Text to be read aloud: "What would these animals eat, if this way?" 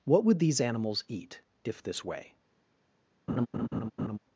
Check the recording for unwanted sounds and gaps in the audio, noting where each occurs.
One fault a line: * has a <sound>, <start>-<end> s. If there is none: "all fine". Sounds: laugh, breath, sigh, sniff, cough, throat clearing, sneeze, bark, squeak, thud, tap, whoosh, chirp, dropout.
* has a laugh, 3.3-4.2 s